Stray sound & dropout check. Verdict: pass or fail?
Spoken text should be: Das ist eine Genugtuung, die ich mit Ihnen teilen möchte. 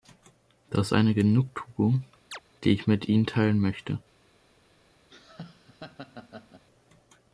fail